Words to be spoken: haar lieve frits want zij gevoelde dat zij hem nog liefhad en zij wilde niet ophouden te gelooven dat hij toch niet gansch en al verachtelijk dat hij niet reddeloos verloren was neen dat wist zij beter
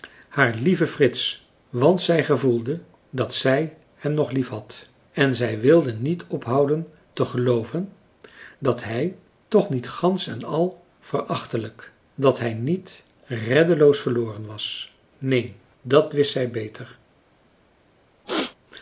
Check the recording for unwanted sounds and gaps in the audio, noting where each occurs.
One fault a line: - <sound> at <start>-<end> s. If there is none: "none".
- throat clearing at 18.2-18.6 s